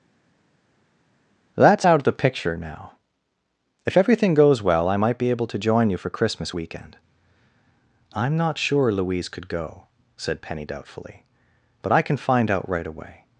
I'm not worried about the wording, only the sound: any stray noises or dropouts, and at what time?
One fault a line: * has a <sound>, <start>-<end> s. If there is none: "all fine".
all fine